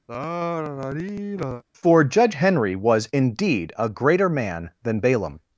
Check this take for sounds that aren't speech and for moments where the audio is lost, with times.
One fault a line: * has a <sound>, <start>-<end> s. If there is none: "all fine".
* has a sigh, 0.1-1.6 s